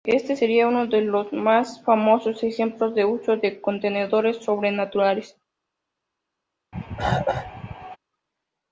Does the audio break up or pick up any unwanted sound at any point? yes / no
yes